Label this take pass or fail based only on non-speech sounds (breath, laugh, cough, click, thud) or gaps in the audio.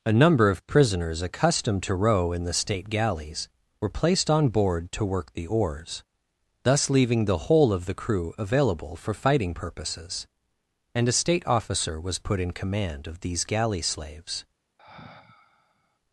fail